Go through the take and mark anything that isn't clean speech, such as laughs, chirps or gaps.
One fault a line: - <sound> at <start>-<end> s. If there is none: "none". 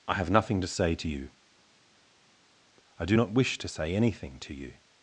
none